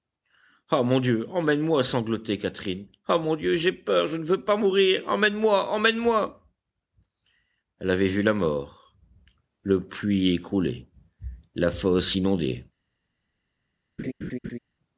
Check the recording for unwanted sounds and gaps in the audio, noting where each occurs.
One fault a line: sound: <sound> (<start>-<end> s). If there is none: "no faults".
sound: laugh (14.0-14.6 s)